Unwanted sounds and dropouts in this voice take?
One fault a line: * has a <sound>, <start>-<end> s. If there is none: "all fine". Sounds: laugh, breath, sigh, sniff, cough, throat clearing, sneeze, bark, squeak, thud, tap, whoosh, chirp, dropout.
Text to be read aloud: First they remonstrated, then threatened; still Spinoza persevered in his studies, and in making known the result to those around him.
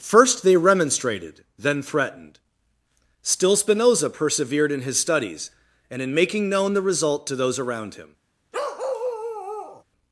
* has a bark, 8.5-9.8 s